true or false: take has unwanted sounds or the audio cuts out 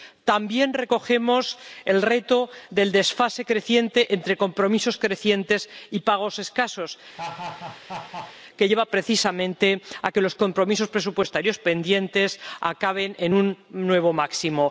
true